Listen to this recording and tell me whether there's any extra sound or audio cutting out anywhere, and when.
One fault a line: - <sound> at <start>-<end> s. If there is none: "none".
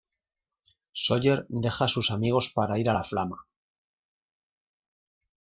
none